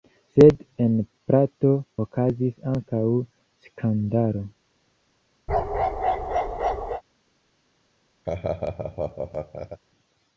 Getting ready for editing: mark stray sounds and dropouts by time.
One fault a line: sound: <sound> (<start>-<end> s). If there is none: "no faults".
sound: bark (5.5-7.0 s)
sound: laugh (8.2-9.8 s)